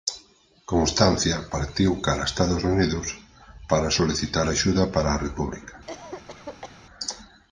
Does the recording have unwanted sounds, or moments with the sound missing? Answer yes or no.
yes